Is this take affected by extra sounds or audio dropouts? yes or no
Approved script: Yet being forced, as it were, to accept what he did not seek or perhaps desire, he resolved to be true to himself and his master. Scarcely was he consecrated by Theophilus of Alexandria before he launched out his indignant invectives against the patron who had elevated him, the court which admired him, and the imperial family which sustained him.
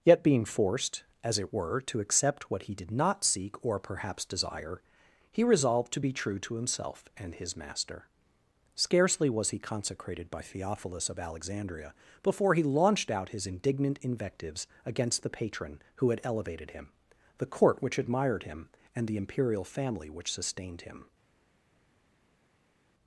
no